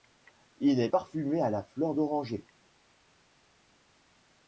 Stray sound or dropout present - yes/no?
no